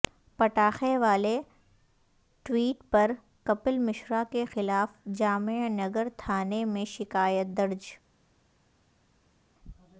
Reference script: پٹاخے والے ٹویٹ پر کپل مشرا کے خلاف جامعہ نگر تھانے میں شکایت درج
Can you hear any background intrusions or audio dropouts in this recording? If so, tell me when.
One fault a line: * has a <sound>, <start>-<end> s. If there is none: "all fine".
all fine